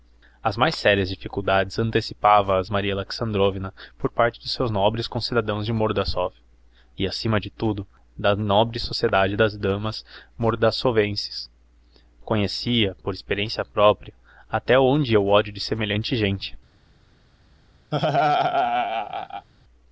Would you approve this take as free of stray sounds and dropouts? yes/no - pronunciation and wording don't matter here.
no